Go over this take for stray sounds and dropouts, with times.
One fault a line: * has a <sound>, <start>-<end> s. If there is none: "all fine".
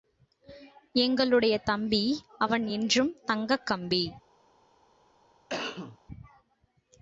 * has a cough, 5.5-6.0 s